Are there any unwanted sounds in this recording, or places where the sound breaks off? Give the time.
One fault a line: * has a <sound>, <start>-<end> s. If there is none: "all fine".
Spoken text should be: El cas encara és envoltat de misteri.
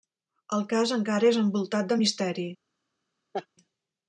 * has a laugh, 3.3-3.5 s